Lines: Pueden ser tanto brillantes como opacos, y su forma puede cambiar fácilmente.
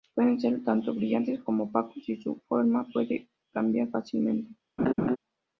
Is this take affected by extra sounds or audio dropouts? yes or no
yes